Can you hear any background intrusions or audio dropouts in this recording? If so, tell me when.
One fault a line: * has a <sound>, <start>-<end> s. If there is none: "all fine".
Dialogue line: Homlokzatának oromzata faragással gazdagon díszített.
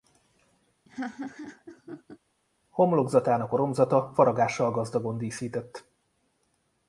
* has a laugh, 0.9-2.2 s